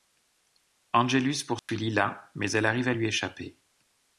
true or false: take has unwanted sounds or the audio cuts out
true